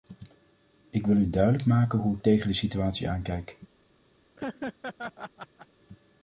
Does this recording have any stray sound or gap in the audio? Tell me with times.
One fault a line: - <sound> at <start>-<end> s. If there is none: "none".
- laugh at 4.4-5.7 s